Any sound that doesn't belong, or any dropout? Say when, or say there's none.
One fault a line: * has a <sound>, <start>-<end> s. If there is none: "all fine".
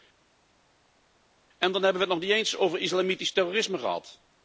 all fine